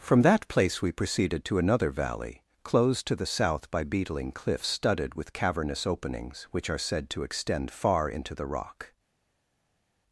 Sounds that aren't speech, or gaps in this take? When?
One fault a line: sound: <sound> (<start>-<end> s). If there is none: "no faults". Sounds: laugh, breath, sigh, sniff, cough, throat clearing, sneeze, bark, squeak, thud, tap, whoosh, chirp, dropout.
no faults